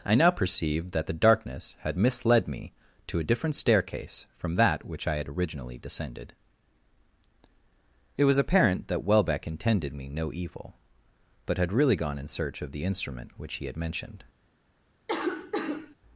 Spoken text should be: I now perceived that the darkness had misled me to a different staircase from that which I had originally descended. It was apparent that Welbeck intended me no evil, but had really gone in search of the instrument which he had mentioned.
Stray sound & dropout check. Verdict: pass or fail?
fail